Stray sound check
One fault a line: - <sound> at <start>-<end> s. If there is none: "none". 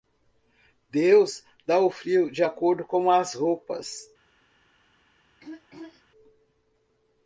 - throat clearing at 5.4-6.0 s